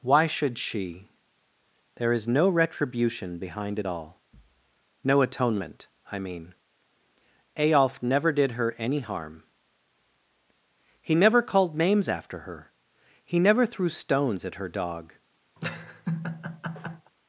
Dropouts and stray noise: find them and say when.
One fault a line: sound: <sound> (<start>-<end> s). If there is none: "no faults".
sound: laugh (15.6-17.1 s)